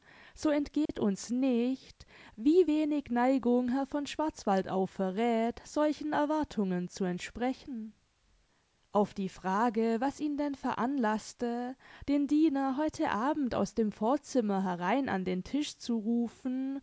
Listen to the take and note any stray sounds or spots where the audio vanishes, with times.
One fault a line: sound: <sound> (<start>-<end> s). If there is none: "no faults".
sound: dropout (0.9-0.9 s)